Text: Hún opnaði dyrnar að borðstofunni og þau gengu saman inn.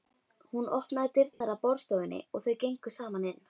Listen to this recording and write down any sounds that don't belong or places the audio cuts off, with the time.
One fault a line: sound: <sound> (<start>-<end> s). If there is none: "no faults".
sound: dropout (1.3-1.4 s)